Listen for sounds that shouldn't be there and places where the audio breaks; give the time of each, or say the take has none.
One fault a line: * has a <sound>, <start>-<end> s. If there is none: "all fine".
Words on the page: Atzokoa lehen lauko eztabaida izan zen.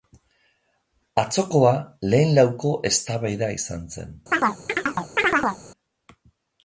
* has a chirp, 4.3-5.6 s